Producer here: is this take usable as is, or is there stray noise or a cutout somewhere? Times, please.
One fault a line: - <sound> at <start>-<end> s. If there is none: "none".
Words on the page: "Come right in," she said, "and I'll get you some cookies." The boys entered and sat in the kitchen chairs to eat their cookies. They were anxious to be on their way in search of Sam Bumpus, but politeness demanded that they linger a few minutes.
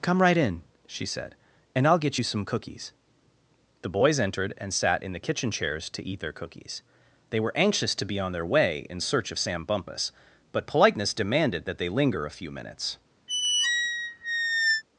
- squeak at 13.3-14.8 s